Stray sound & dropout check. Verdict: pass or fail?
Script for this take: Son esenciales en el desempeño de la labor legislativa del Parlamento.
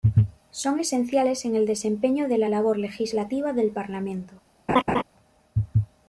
fail